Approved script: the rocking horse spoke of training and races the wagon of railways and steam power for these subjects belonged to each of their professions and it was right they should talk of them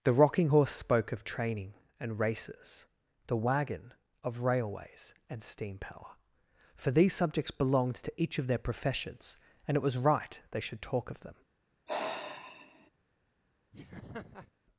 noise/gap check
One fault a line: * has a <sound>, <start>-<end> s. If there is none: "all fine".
* has a sigh, 11.9-12.9 s
* has a laugh, 13.7-14.5 s